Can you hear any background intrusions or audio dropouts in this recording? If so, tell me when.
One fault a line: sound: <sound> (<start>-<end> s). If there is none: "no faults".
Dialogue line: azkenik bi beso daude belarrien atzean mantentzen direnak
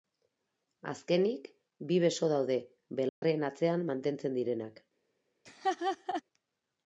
sound: dropout (3.1-3.2 s)
sound: laugh (5.5-6.2 s)